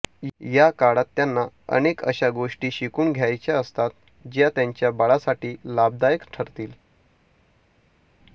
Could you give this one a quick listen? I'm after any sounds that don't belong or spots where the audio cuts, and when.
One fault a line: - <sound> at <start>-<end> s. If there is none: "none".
none